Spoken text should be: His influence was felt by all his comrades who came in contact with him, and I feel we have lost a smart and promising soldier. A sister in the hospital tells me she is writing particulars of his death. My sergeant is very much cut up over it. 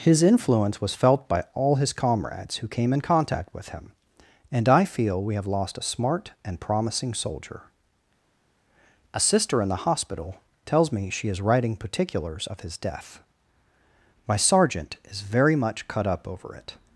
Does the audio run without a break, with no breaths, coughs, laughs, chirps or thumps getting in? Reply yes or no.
yes